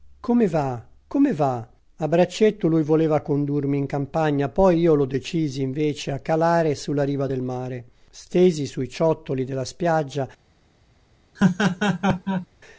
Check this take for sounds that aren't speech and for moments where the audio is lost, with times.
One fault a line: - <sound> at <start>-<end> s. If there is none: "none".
- laugh at 11.4-12.5 s